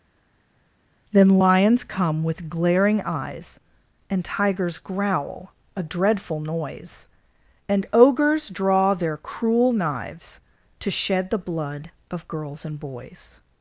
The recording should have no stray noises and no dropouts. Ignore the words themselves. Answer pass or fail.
pass